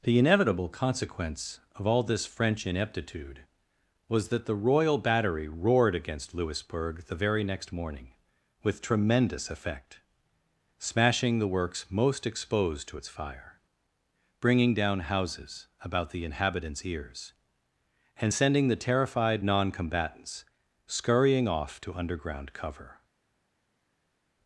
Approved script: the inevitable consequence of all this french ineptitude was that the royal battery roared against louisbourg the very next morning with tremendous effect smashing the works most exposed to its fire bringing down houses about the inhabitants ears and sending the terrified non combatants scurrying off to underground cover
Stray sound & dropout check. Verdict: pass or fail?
pass